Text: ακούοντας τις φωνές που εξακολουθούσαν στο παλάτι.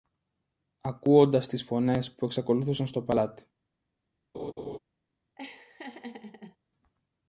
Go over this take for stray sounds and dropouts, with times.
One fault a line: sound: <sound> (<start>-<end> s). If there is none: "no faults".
sound: laugh (4.3-4.8 s)
sound: laugh (5.4-6.6 s)